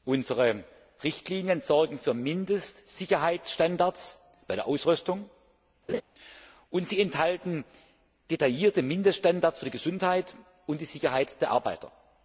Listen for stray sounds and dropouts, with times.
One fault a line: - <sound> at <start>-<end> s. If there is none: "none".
- laugh at 5.9-6.0 s